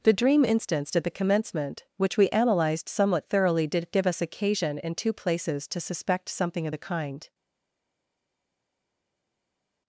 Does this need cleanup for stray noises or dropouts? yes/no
no